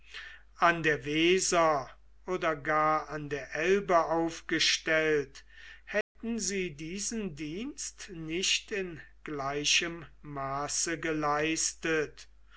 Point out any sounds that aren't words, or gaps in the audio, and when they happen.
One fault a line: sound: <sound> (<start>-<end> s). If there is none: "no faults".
sound: dropout (6.0-6.2 s)